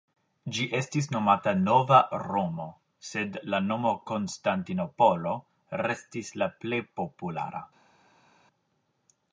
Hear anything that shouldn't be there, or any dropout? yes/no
no